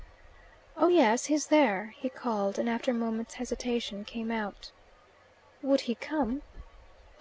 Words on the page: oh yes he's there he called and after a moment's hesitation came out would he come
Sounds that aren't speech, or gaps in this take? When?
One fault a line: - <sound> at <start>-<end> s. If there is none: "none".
none